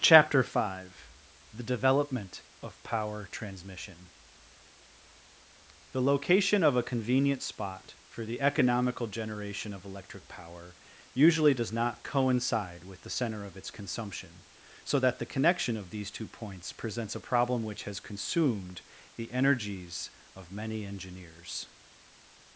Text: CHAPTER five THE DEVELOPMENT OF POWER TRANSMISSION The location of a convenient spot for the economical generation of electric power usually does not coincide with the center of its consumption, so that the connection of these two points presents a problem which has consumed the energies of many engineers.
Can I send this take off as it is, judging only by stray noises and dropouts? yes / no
yes